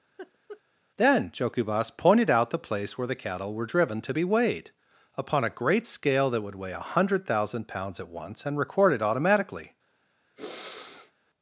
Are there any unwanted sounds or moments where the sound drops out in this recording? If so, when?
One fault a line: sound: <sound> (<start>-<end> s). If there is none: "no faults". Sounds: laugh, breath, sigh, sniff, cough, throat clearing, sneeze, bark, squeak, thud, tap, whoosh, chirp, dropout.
sound: laugh (0.2-0.6 s)
sound: sniff (10.4-11.1 s)